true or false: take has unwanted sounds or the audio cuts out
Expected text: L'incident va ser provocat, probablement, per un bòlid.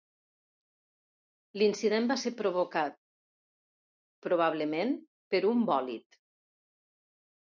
false